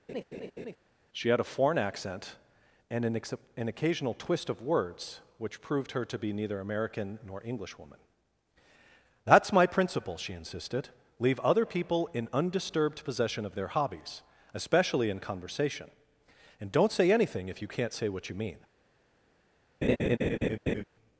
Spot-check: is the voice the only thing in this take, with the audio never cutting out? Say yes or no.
no